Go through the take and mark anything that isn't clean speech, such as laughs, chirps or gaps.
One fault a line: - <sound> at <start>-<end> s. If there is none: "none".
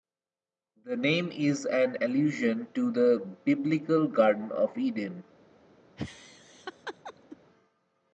- laugh at 6.0-7.4 s